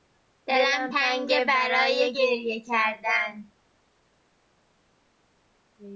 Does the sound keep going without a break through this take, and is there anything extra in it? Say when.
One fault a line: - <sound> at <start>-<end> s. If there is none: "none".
none